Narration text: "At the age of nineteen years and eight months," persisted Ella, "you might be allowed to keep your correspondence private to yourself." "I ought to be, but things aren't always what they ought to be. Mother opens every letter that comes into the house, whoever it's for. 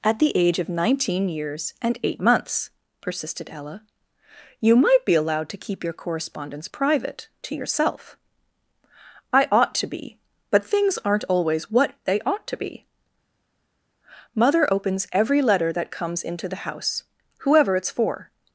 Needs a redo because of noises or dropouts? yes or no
no